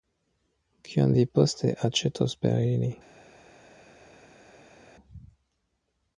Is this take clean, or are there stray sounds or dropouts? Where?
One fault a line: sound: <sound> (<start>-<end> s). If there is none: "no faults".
no faults